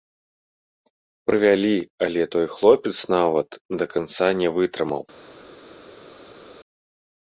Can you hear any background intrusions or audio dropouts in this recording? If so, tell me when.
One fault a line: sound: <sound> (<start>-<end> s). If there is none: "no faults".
no faults